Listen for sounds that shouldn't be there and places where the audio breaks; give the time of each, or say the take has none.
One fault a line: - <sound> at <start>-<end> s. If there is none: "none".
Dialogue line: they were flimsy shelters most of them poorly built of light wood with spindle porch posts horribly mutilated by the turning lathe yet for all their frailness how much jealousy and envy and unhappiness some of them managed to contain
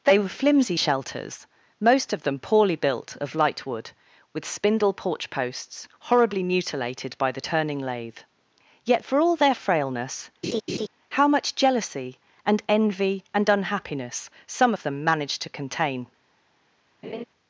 - laugh at 10.4-10.9 s
- laugh at 17.0-17.2 s